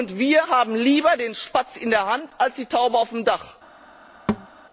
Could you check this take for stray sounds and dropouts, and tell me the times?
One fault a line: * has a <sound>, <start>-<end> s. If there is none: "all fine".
* has a thud, 4.3-4.5 s